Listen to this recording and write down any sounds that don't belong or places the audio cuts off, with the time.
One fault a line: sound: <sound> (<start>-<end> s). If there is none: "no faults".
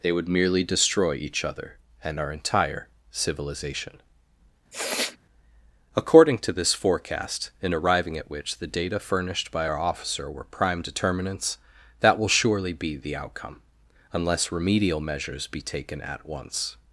sound: sniff (4.7-5.2 s)